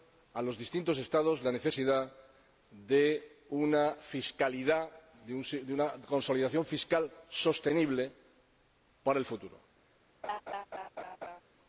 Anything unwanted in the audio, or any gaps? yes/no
yes